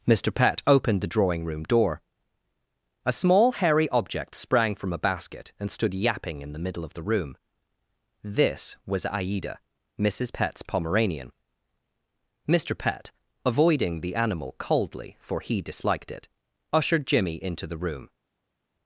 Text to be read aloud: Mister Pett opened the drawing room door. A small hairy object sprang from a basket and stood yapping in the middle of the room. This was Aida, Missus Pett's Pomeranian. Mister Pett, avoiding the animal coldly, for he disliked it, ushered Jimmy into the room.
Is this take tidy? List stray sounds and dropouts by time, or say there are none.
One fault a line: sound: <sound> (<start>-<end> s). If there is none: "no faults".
no faults